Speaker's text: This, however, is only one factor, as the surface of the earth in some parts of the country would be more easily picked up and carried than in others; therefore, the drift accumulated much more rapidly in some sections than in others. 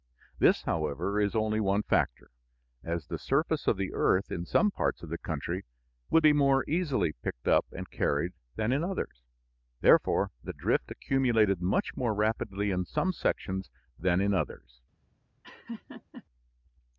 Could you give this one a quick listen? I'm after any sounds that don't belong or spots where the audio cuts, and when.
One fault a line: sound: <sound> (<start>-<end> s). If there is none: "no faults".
sound: laugh (15.4-16.2 s)